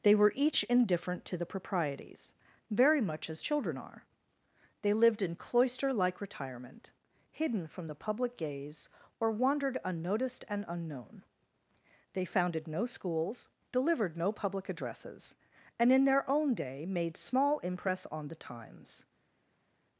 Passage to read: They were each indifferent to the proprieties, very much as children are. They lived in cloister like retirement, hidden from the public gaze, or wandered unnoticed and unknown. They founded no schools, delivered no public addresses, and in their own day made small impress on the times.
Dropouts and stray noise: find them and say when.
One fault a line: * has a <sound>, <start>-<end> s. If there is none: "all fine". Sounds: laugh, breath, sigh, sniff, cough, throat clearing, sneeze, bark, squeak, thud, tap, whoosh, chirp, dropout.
all fine